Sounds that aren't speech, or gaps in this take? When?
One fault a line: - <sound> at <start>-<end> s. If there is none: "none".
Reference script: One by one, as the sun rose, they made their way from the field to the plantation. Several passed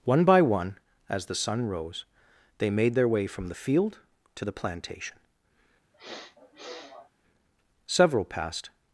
- sniff at 5.9-7.1 s